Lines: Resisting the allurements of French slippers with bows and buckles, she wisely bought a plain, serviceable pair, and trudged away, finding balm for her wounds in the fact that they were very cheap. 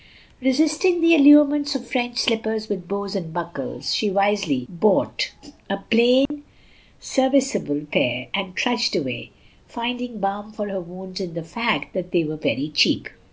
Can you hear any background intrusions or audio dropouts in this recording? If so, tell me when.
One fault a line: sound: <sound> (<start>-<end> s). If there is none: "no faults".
sound: dropout (6.3-6.3 s)